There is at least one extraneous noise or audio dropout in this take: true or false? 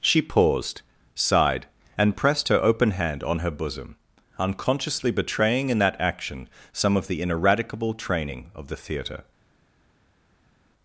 false